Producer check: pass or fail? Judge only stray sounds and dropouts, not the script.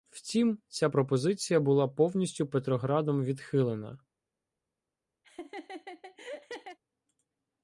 fail